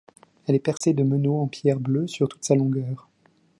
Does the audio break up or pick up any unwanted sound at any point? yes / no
yes